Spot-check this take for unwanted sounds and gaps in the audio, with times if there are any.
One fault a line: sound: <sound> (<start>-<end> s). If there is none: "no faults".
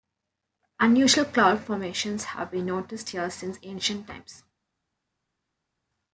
no faults